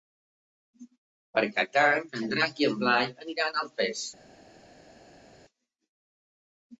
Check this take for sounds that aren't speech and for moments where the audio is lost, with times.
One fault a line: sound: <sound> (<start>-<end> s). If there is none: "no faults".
no faults